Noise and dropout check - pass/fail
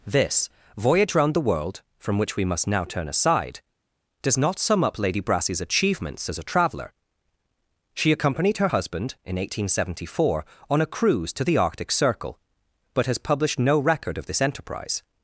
pass